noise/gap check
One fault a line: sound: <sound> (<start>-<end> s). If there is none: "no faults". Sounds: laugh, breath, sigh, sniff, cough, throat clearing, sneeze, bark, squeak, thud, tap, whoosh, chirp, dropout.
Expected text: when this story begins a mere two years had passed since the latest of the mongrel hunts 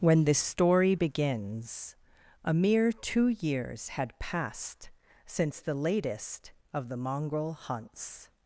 no faults